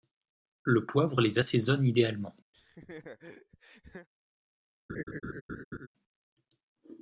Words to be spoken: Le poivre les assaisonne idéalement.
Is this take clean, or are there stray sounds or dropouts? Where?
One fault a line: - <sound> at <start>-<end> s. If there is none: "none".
- laugh at 2.5-4.1 s
- laugh at 4.9-5.9 s